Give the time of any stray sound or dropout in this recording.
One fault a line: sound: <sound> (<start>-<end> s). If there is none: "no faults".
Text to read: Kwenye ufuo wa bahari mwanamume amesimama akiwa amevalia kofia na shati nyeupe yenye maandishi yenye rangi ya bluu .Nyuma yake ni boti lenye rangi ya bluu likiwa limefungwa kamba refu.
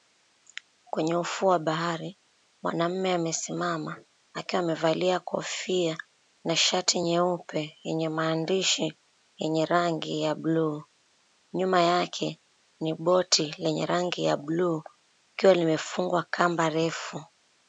no faults